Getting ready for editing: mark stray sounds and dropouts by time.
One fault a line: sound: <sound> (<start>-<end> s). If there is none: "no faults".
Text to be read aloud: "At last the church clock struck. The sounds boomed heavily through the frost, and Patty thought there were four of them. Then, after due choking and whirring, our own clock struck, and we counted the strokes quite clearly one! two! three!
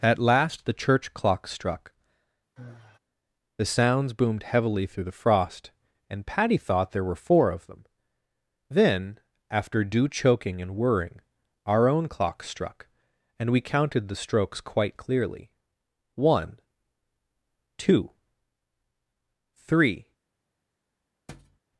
sound: sigh (2.6-3.0 s)
sound: thud (21.3-21.6 s)